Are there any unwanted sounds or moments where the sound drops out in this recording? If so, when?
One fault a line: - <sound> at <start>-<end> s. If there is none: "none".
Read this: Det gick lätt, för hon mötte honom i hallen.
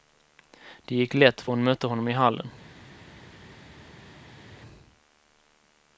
none